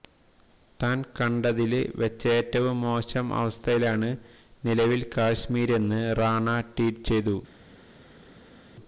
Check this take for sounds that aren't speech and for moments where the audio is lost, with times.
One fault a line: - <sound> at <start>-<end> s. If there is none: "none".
none